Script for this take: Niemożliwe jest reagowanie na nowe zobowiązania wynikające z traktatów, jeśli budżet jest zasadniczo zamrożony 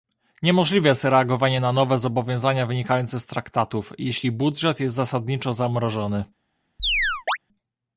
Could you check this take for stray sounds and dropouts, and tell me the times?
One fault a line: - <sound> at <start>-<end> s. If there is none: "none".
- chirp at 6.8-7.4 s